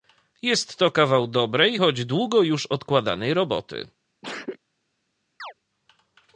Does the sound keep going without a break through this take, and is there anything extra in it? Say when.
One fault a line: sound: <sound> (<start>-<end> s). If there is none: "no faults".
sound: sneeze (4.2-4.6 s)
sound: chirp (5.4-5.5 s)